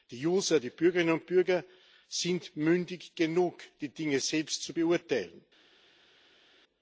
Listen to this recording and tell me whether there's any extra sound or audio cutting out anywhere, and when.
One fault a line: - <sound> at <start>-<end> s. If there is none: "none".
none